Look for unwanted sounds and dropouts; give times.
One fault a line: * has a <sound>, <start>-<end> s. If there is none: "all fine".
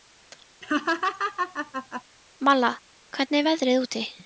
* has a laugh, 0.6-2.0 s